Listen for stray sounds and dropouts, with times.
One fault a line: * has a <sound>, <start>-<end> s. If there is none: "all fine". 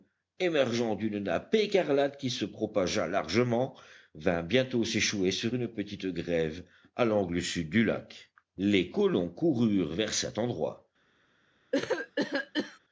* has a cough, 11.7-12.8 s